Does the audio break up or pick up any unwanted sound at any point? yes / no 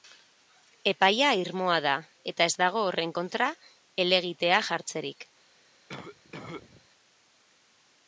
yes